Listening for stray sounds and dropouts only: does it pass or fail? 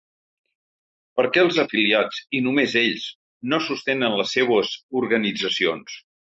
pass